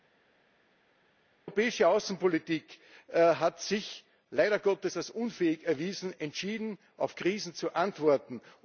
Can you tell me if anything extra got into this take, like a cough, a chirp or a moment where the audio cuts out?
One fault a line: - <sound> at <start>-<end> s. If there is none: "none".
none